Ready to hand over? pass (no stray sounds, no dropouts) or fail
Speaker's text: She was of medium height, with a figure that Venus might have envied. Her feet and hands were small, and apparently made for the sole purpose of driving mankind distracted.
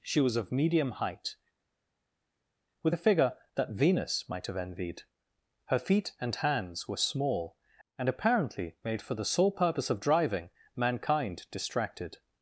pass